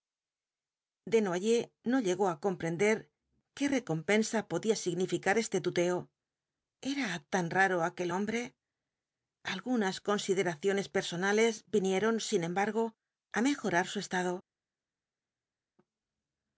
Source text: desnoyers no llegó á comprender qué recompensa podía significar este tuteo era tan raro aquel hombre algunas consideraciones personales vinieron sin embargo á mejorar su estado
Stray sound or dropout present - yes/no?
no